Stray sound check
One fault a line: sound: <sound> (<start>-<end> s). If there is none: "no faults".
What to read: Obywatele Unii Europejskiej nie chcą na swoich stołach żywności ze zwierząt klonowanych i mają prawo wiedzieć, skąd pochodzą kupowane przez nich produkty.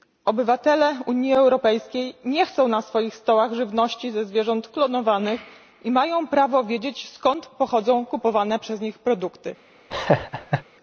sound: laugh (9.9-10.6 s)